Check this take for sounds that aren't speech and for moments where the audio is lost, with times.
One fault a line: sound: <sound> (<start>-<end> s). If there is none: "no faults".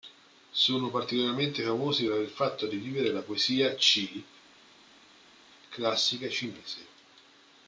no faults